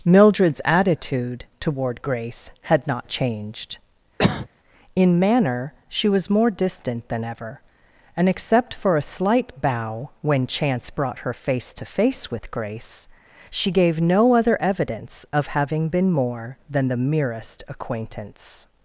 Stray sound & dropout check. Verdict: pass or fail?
fail